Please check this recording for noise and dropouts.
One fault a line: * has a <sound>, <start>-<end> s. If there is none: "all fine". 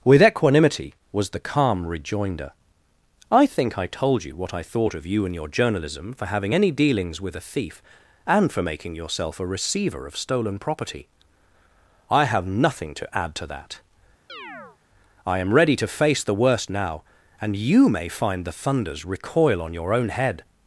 * has a chirp, 14.3-14.8 s